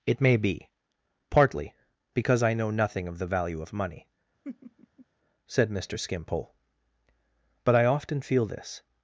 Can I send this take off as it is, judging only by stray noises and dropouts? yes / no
no